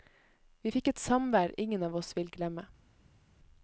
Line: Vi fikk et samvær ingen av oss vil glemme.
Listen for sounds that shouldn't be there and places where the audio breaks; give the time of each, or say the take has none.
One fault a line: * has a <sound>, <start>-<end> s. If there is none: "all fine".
all fine